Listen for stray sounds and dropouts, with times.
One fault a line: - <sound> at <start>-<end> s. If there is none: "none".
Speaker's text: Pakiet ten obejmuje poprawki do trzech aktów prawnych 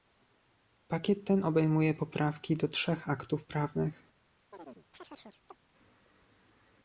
- chirp at 4.5-5.6 s